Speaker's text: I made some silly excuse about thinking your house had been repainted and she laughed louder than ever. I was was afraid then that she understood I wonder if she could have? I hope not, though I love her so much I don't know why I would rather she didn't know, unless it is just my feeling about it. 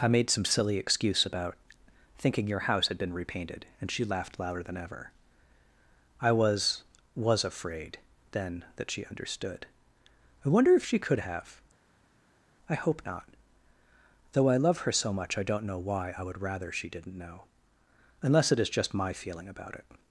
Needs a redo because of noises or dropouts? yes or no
no